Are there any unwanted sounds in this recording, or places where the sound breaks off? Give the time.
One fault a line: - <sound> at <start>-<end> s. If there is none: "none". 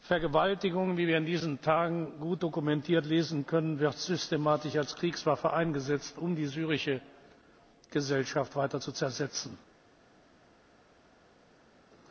none